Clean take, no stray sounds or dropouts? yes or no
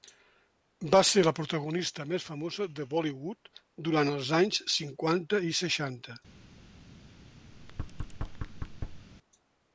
no